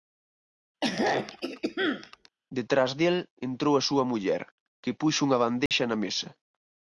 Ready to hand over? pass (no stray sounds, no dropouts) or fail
fail